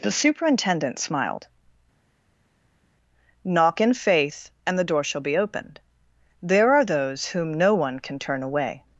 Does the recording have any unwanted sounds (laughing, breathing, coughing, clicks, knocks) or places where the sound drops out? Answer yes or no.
no